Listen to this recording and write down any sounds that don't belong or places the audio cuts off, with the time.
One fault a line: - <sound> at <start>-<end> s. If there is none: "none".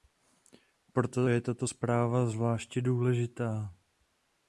none